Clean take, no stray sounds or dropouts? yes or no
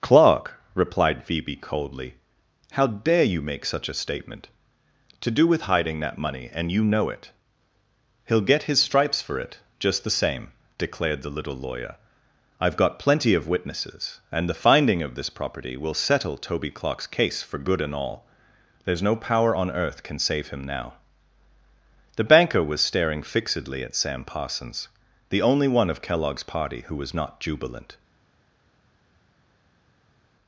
yes